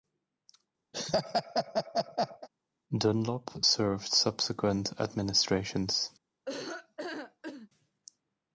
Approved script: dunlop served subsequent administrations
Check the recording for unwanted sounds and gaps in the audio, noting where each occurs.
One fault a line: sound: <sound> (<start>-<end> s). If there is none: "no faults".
sound: laugh (0.9-2.5 s)
sound: laugh (6.5-7.7 s)